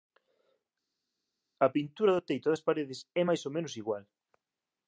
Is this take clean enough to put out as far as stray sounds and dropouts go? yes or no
yes